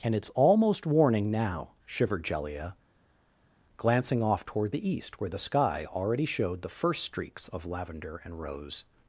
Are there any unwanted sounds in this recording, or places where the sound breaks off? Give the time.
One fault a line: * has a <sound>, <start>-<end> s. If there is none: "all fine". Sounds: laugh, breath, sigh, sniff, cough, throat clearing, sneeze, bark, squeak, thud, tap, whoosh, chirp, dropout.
all fine